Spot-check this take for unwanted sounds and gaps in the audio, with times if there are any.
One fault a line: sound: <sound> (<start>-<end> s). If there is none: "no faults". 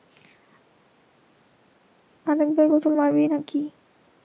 no faults